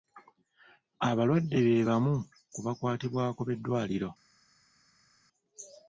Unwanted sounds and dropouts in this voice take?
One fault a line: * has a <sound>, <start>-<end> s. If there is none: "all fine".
all fine